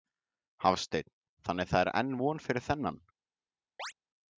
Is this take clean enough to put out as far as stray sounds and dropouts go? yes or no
no